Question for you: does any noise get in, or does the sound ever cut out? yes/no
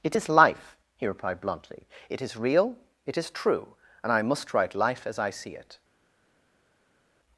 no